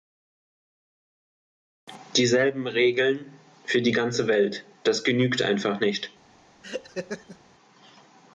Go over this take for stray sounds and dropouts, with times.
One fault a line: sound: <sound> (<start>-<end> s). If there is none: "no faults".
sound: laugh (6.6-7.4 s)